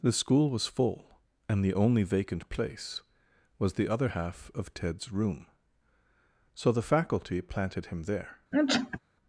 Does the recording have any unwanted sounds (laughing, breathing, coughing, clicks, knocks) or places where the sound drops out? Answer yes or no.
yes